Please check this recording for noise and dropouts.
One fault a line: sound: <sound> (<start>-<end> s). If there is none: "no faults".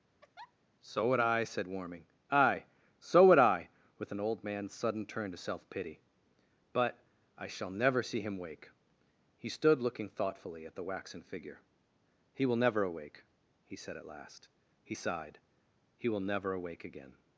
sound: laugh (0.2-0.5 s)